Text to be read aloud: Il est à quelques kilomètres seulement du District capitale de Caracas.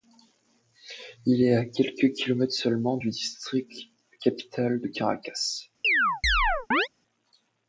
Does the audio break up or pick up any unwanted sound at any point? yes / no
yes